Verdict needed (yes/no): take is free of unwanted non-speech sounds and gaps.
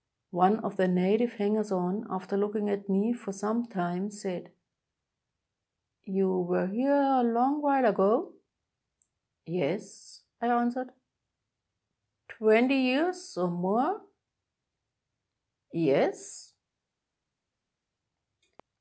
yes